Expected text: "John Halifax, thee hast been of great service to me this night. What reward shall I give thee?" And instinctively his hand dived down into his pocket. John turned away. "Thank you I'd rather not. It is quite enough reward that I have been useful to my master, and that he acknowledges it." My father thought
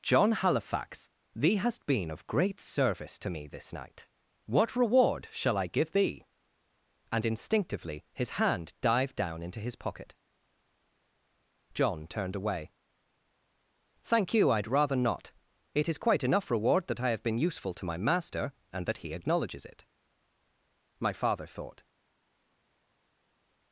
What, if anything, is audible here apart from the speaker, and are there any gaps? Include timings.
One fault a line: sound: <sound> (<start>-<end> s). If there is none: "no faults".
no faults